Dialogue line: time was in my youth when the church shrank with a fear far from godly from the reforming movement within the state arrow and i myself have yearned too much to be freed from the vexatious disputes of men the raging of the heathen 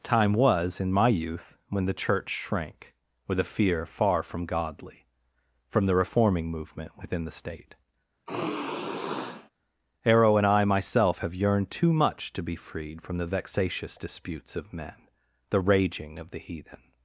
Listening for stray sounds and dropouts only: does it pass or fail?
fail